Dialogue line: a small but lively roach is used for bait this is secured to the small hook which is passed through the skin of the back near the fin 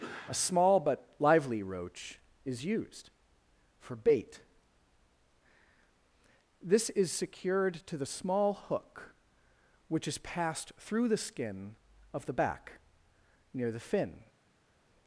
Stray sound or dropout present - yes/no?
no